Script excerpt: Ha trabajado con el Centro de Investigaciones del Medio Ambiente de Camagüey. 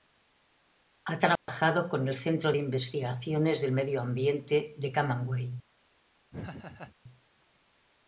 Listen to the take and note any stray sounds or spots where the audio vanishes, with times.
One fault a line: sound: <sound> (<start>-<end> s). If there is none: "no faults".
sound: dropout (1.4-1.5 s)
sound: laugh (6.3-7.0 s)